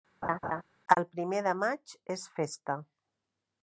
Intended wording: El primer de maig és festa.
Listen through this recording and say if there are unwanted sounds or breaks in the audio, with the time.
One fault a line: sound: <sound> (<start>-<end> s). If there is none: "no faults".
sound: laugh (0.2-0.6 s)